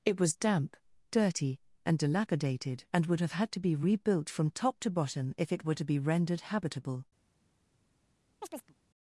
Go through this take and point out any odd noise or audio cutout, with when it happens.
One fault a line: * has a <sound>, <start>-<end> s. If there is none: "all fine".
* has a chirp, 8.4-8.7 s